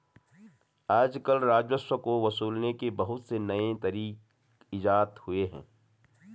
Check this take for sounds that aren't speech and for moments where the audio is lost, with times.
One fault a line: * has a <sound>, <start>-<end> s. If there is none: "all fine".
all fine